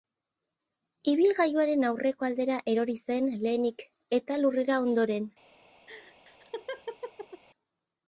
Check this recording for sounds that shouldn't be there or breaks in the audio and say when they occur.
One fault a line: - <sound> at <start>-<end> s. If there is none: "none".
- laugh at 5.9-7.4 s